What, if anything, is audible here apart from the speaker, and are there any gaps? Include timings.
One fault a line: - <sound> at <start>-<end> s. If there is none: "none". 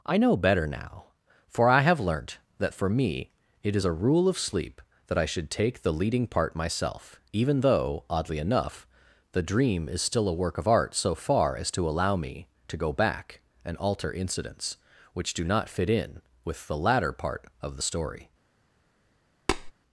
- tap at 19.5-19.7 s